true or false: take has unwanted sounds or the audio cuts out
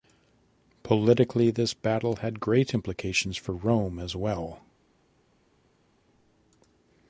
false